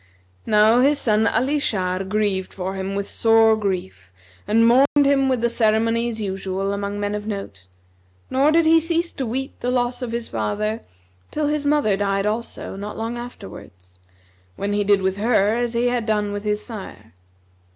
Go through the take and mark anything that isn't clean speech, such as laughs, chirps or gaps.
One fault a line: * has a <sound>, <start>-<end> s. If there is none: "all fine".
* has a dropout, 4.9-5.0 s